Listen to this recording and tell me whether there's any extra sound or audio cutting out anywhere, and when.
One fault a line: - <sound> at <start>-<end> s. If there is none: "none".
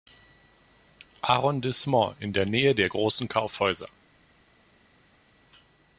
none